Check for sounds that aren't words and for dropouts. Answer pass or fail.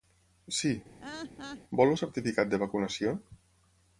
fail